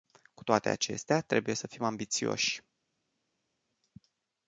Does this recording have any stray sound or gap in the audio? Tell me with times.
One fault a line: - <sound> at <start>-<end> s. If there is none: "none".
none